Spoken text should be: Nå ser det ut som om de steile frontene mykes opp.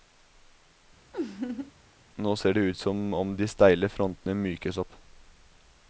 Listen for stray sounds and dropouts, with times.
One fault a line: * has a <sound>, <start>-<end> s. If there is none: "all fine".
* has a laugh, 1.1-1.7 s